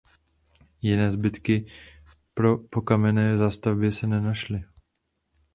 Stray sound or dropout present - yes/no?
no